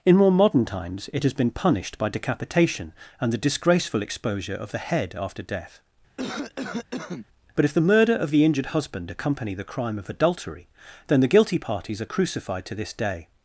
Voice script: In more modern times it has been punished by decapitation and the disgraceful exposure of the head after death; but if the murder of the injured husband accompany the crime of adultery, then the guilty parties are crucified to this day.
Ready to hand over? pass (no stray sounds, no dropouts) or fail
fail